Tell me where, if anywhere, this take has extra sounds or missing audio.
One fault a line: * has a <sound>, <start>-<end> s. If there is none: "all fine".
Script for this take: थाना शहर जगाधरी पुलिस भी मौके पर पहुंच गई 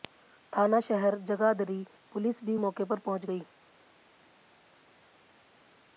all fine